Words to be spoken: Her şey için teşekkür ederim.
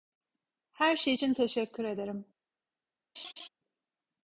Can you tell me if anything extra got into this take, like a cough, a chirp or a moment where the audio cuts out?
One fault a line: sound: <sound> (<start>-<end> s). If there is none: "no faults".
sound: laugh (3.2-3.5 s)